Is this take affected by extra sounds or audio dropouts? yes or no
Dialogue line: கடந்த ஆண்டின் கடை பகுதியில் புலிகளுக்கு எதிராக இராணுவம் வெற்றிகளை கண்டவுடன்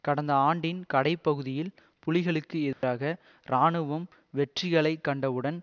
yes